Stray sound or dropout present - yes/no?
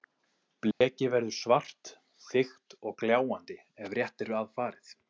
yes